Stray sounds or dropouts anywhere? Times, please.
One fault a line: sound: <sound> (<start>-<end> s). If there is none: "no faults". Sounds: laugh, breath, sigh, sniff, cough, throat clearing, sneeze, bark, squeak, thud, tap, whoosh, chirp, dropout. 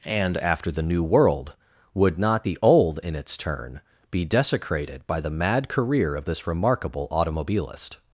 no faults